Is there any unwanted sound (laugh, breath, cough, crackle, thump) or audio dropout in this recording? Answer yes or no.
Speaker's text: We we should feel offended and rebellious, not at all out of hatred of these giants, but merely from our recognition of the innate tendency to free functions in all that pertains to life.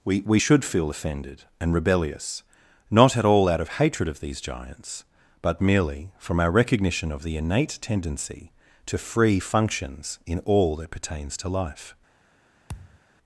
yes